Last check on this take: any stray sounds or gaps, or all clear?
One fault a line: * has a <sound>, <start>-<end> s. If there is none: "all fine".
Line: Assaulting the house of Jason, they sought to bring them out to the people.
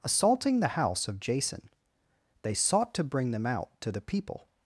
all fine